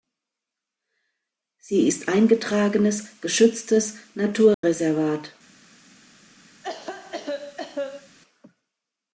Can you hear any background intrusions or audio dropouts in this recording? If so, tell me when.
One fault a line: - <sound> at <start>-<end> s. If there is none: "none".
- dropout at 4.5-4.6 s
- cough at 6.6-8.2 s